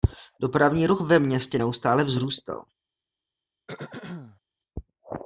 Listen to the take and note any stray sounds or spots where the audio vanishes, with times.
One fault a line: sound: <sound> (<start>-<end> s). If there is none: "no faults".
sound: throat clearing (3.7-4.4 s)